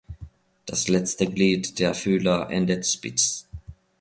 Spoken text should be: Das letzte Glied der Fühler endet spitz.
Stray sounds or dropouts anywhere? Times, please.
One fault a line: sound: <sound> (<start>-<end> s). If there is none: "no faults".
no faults